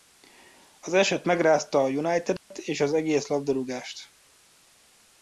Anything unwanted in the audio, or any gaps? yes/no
yes